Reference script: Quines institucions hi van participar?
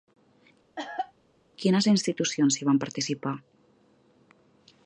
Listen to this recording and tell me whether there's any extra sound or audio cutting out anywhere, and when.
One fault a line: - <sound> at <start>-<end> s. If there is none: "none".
- cough at 0.8-1.1 s